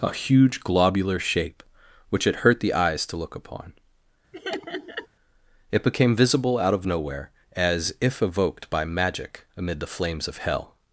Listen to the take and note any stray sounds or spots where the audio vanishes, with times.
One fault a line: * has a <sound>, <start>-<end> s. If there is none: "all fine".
* has a laugh, 4.3-5.1 s